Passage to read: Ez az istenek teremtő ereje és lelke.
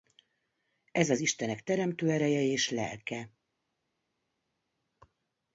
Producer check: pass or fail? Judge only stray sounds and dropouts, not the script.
pass